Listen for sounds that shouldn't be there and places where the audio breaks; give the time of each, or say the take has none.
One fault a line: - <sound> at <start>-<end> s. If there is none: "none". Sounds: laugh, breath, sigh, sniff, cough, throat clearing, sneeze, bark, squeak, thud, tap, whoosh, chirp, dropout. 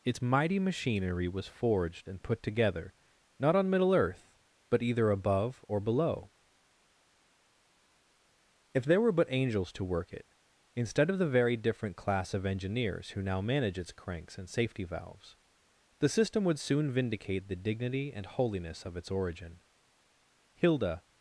none